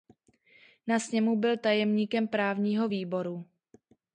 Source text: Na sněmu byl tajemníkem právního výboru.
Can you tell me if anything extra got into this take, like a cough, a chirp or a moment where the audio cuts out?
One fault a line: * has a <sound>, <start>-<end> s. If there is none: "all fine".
all fine